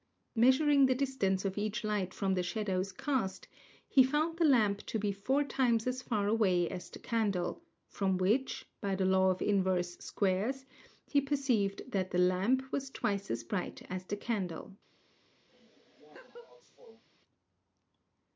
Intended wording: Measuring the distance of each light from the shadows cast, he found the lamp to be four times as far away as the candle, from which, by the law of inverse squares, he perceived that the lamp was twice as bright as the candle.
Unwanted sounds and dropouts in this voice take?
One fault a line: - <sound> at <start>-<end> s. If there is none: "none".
- laugh at 15.5-17.0 s